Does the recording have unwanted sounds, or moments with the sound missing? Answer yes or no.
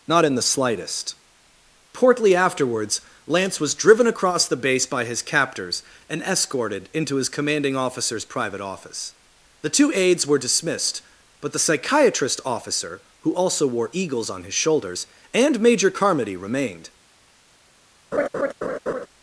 yes